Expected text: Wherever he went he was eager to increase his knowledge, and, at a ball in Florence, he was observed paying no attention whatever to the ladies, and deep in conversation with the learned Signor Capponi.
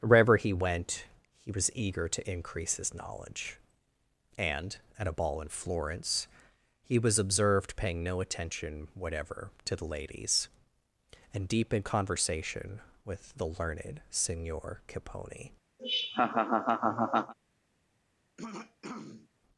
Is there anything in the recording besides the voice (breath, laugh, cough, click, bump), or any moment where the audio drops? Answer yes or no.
yes